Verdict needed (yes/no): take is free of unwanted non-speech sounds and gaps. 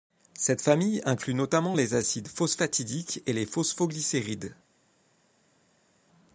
yes